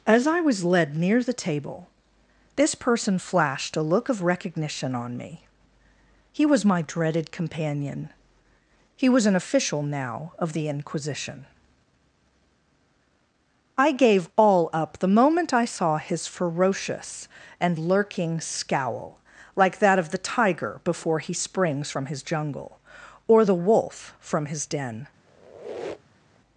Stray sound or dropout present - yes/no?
yes